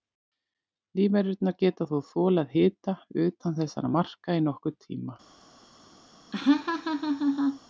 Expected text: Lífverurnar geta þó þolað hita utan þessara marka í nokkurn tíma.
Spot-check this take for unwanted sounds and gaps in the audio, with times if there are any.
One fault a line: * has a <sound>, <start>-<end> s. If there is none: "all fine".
* has a laugh, 6.3-7.6 s